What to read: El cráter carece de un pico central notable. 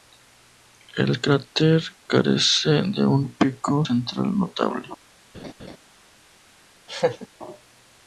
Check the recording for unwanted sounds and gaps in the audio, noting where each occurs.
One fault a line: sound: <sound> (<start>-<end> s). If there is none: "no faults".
sound: laugh (5.3-5.8 s)
sound: laugh (6.9-7.3 s)